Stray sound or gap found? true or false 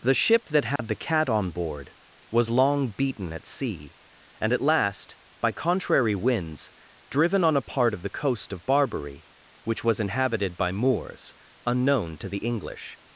true